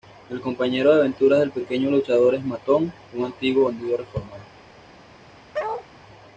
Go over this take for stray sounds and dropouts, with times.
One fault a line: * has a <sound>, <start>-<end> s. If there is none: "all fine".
* has a bark, 5.5-5.9 s